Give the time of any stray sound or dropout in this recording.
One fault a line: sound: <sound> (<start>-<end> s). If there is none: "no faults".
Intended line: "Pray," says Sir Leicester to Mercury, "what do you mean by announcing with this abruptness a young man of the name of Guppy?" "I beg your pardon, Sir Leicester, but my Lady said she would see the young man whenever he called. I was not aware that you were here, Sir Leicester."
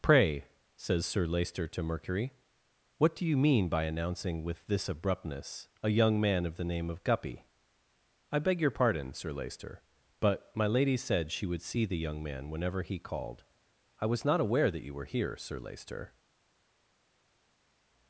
no faults